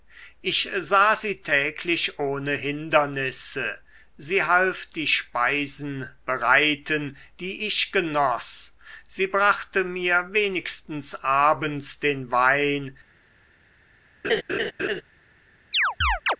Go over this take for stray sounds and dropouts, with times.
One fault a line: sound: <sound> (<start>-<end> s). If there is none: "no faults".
sound: laugh (14.2-15.0 s)
sound: chirp (15.7-16.4 s)